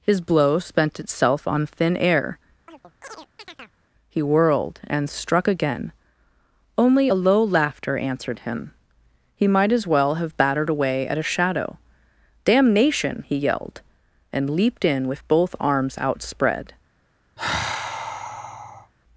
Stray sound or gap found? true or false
true